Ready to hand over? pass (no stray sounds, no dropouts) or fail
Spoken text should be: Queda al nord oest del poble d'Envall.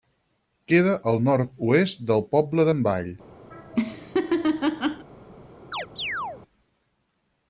fail